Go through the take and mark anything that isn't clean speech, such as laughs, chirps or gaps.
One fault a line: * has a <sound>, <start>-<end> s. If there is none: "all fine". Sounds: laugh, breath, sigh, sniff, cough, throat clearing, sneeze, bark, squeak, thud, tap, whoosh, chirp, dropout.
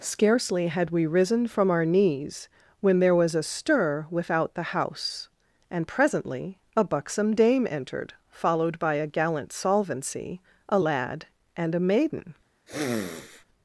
* has a sniff, 12.7-13.5 s